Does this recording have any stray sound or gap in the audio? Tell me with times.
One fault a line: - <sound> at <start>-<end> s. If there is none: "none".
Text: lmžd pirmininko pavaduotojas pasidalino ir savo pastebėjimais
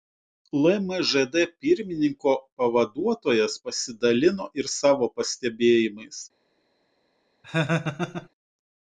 - laugh at 7.4-8.3 s